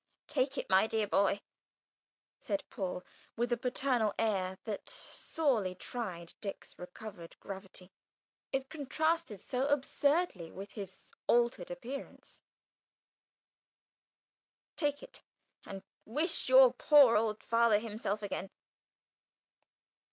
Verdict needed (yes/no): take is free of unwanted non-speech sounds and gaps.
yes